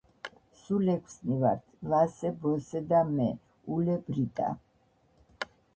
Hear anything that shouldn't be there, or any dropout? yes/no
no